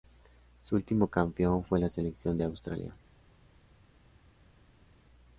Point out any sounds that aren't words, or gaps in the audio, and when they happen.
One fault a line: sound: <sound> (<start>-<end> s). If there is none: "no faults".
no faults